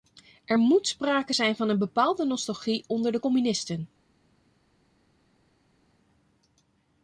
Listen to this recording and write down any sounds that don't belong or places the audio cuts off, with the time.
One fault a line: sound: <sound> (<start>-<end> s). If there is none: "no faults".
no faults